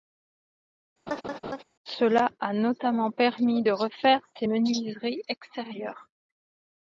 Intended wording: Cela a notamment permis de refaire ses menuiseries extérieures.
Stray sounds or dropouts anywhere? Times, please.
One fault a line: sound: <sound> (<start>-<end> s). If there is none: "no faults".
sound: laugh (1.1-1.6 s)